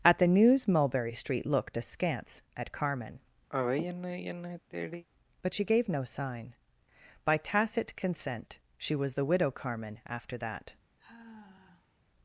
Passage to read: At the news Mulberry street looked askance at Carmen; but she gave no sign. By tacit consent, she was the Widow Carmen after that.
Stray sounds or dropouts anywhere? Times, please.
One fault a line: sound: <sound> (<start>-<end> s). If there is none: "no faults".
sound: sigh (3.5-5.0 s)
sound: sigh (11.0-12.0 s)